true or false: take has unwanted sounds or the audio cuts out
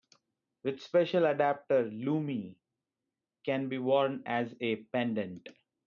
false